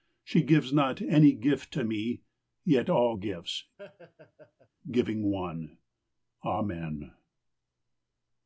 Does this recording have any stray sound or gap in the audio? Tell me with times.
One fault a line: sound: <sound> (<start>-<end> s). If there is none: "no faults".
sound: laugh (3.8-4.7 s)